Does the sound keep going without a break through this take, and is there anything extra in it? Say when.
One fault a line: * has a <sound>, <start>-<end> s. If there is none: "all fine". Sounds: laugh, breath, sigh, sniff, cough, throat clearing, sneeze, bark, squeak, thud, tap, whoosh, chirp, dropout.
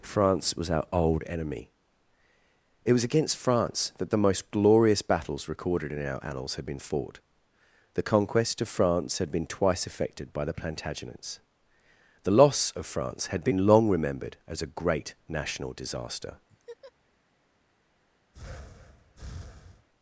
* has a laugh, 16.5-16.9 s
* has a breath, 18.3-19.9 s